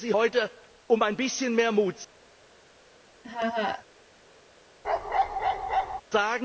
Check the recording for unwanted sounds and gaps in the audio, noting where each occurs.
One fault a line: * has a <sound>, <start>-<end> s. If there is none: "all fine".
* has a laugh, 3.2-3.9 s
* has a bark, 4.8-6.0 s